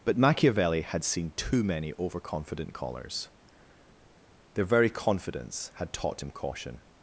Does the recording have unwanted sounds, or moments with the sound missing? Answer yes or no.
no